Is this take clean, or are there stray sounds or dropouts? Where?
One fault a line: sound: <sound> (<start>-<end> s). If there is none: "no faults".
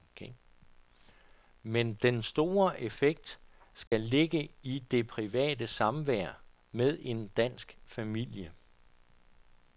sound: dropout (3.9-3.9 s)